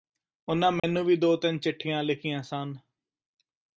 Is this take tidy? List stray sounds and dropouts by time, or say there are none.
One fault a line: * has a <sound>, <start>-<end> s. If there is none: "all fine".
* has a dropout, 0.8-0.8 s